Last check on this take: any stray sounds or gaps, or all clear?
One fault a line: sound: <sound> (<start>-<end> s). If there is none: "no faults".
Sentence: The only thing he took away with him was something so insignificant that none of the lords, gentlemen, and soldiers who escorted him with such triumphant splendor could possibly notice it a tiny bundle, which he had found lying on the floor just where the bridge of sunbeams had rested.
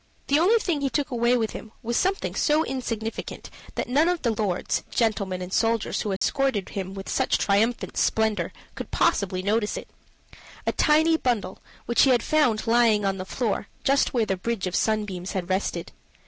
sound: dropout (6.2-6.2 s)